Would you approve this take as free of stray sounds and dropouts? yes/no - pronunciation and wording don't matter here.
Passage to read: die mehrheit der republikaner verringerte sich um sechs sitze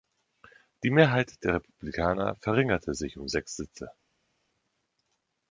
yes